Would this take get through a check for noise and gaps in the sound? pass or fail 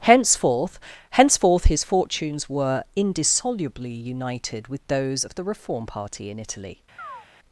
fail